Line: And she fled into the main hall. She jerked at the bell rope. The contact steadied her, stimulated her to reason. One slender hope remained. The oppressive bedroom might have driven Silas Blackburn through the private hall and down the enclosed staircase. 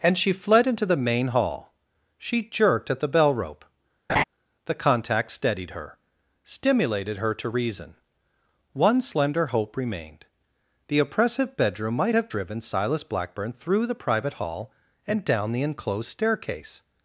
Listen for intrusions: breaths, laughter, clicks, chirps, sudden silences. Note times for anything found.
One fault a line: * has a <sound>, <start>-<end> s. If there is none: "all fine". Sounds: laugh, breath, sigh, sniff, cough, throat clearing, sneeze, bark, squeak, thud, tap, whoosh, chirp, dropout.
* has a laugh, 4.1-4.2 s